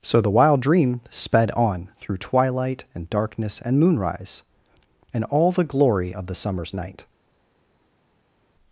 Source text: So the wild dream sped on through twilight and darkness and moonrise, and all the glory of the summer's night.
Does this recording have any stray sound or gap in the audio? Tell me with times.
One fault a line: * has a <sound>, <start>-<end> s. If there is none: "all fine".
all fine